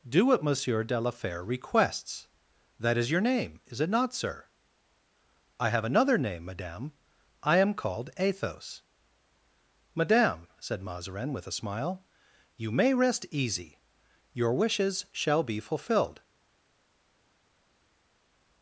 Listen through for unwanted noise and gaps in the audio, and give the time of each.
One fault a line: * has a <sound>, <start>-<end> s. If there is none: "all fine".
all fine